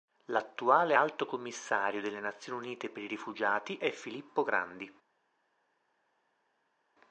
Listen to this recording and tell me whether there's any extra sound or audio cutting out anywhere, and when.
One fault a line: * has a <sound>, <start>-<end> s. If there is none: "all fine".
all fine